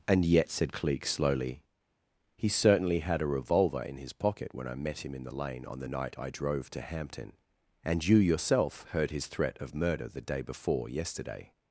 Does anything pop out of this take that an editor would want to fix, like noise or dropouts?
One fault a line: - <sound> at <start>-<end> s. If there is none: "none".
none